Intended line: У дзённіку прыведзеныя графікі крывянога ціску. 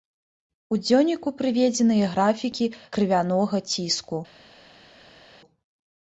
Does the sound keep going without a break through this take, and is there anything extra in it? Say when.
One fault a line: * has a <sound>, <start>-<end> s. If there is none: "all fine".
all fine